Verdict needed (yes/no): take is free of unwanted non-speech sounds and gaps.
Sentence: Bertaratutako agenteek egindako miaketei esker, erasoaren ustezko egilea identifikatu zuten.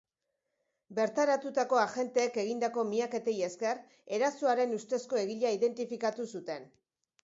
yes